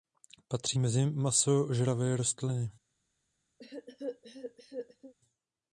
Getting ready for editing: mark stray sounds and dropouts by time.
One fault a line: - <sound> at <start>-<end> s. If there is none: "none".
- cough at 3.6-5.1 s